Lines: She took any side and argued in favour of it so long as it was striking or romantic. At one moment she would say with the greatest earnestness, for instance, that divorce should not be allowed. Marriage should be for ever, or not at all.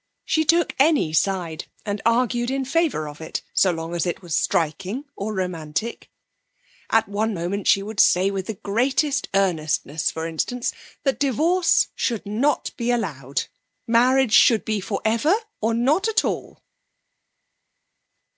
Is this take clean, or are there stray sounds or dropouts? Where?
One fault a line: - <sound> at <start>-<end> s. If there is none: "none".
none